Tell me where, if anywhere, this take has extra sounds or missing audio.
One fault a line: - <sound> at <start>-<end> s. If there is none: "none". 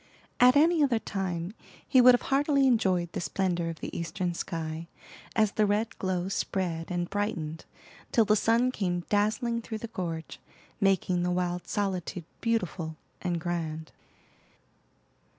none